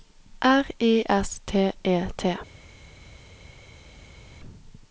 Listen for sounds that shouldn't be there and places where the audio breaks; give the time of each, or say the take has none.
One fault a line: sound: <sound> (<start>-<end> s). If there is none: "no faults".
no faults